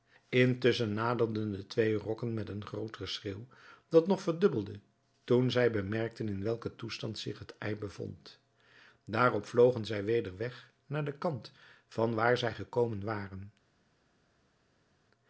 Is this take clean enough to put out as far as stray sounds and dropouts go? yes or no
yes